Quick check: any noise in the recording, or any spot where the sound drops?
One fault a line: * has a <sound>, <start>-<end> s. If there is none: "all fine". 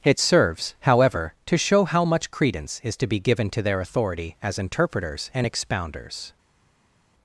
all fine